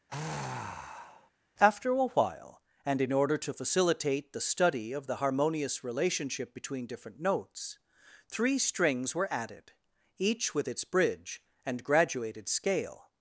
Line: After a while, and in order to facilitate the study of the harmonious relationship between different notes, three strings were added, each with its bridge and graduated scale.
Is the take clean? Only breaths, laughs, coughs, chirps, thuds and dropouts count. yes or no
no